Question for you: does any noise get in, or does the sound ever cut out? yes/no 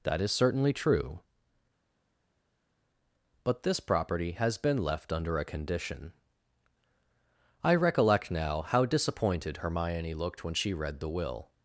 no